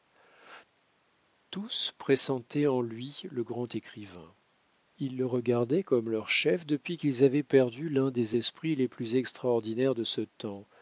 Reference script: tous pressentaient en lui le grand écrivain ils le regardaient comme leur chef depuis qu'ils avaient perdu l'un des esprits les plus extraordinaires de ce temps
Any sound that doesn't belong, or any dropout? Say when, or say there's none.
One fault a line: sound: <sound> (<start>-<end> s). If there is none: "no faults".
no faults